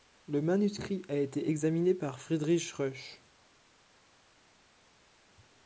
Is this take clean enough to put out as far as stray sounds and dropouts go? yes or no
yes